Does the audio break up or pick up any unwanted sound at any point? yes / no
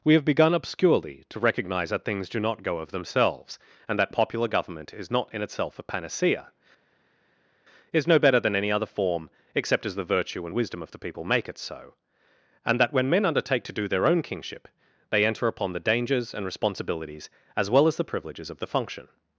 no